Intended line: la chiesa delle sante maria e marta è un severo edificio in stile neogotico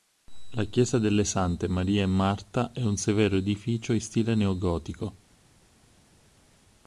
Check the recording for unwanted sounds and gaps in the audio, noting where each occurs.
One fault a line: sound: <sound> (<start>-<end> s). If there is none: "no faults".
no faults